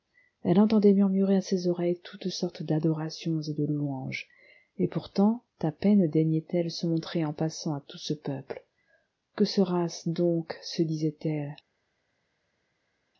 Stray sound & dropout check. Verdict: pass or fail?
pass